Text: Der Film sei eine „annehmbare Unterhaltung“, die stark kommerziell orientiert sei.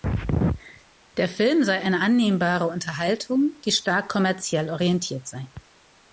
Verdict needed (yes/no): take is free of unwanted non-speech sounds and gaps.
yes